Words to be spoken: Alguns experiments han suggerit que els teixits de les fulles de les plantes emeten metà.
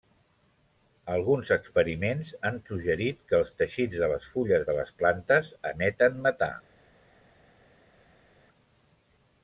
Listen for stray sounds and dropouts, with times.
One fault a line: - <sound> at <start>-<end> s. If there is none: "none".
none